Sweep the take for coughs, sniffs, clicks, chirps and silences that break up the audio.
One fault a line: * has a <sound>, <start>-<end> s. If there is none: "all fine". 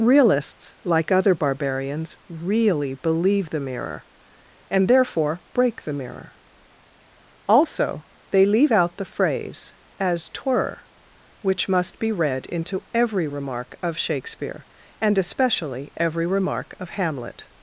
all fine